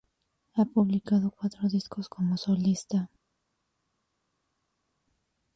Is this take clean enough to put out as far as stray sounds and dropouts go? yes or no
yes